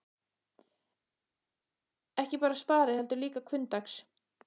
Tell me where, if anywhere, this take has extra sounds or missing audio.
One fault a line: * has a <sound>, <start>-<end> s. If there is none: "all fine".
all fine